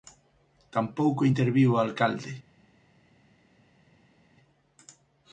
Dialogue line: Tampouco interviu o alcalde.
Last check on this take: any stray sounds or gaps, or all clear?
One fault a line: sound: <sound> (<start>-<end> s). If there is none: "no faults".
no faults